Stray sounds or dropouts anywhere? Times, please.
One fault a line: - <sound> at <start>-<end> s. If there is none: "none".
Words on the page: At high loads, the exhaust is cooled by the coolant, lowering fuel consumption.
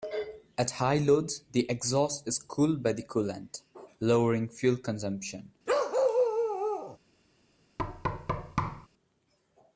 - bark at 5.7-7.0 s
- thud at 7.8-8.9 s